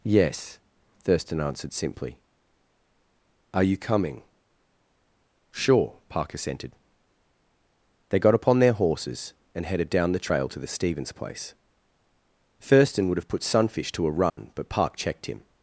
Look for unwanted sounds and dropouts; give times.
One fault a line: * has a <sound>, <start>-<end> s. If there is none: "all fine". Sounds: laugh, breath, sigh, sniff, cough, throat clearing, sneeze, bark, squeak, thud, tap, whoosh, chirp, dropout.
* has a dropout, 14.3-14.4 s